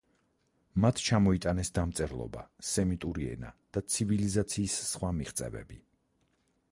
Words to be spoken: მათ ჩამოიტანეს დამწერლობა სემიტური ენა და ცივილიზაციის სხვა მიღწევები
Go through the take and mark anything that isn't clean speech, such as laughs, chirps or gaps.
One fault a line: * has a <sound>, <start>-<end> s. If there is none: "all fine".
all fine